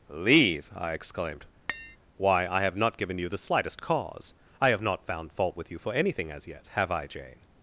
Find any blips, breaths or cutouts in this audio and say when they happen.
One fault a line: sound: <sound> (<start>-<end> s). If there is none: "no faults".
sound: tap (1.7-2.0 s)